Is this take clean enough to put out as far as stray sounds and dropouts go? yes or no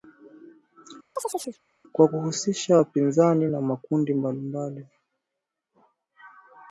no